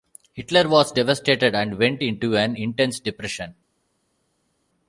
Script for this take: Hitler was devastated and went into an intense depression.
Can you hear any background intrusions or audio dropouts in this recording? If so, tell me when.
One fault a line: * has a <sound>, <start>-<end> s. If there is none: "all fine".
all fine